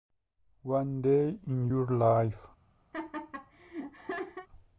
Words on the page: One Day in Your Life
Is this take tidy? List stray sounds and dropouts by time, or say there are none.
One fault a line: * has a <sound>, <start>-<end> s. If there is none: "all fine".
* has a laugh, 2.9-4.5 s